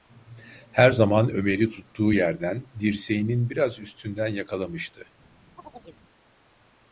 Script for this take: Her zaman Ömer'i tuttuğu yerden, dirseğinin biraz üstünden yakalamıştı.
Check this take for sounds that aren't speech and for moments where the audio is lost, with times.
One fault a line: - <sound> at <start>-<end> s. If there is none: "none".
- chirp at 5.6-6.0 s